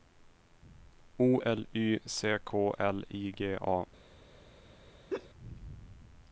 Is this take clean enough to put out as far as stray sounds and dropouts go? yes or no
no